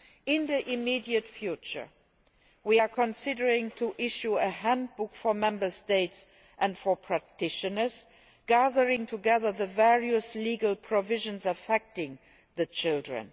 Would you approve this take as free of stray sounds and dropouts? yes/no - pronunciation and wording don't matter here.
yes